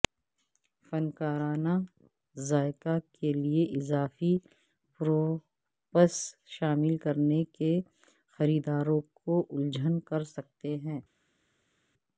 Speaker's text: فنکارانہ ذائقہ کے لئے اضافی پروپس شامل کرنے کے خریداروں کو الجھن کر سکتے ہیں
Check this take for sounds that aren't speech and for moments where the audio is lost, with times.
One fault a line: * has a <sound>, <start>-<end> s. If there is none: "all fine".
all fine